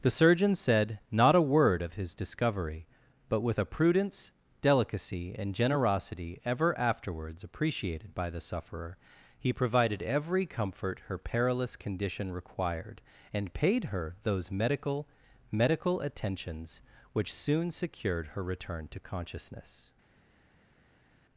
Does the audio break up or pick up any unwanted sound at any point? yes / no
no